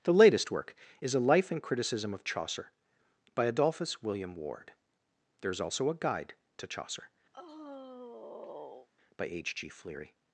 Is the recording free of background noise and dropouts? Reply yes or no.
no